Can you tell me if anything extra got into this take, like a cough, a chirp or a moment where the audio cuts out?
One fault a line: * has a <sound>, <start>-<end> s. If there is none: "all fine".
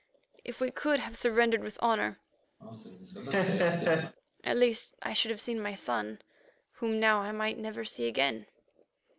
* has a laugh, 2.6-4.2 s